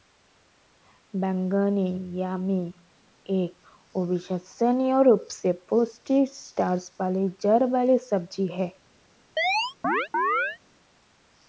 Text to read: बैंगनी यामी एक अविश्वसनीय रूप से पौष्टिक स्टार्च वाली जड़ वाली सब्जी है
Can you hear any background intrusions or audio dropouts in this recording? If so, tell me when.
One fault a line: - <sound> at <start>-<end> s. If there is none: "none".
- chirp at 9.4-10.6 s